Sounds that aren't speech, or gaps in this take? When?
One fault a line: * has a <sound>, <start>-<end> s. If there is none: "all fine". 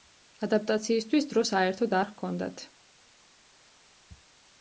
all fine